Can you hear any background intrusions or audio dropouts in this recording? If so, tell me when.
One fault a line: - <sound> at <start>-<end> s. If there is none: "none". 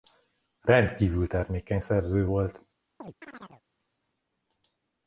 - chirp at 3.0-3.6 s